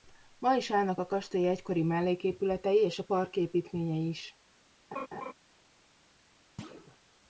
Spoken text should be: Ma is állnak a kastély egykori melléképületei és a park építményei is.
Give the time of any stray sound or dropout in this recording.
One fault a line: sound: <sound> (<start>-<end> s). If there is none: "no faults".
sound: laugh (4.9-5.3 s)
sound: thud (6.6-7.0 s)